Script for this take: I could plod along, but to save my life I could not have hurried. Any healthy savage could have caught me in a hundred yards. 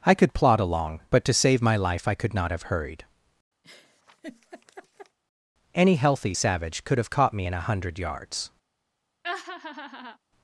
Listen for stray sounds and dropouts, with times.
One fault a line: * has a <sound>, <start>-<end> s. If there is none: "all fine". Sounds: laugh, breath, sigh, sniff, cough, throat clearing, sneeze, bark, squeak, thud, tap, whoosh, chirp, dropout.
* has a laugh, 3.6-5.2 s
* has a laugh, 9.2-10.2 s